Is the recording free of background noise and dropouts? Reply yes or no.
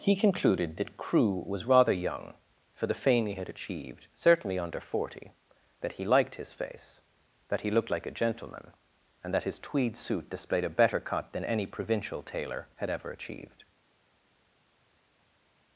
yes